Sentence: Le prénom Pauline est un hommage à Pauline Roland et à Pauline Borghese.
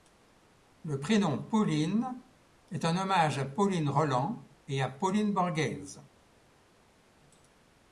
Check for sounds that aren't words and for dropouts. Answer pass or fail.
pass